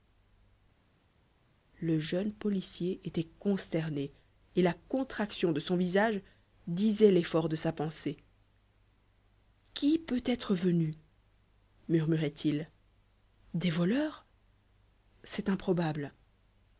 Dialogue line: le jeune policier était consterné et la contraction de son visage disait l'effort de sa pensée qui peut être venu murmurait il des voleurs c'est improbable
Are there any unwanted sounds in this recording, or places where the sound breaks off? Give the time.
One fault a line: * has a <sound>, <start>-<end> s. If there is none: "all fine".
all fine